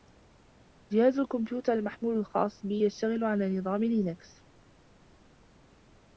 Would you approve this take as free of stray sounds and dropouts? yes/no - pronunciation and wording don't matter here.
yes